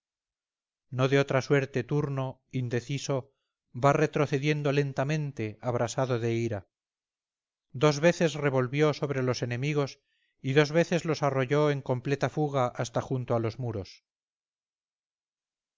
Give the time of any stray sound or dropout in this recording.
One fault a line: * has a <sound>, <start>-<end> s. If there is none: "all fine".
all fine